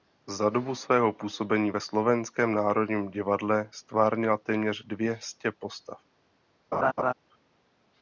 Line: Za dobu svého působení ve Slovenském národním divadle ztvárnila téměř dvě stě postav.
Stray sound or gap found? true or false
true